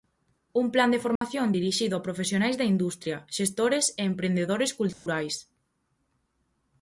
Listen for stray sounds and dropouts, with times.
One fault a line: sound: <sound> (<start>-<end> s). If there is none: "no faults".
sound: dropout (1.2-1.2 s)
sound: dropout (4.9-5.1 s)